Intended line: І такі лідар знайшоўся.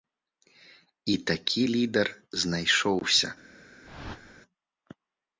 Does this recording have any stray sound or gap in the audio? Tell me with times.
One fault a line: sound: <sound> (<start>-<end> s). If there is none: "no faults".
sound: whoosh (3.8-4.4 s)